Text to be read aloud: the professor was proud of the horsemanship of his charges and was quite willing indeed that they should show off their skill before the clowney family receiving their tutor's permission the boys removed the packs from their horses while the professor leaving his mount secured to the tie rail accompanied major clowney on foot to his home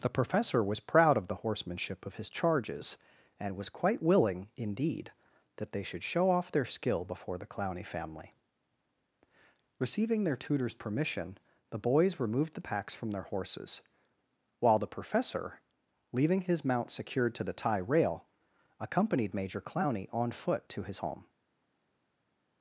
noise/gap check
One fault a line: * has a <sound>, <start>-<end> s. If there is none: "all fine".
all fine